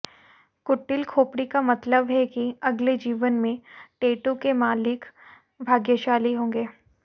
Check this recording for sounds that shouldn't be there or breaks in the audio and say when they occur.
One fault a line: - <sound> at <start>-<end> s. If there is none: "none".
none